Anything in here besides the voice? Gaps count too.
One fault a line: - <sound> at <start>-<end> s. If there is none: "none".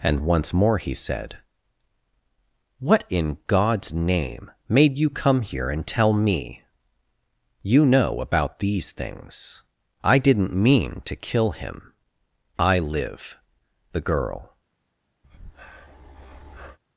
- breath at 15.2-16.8 s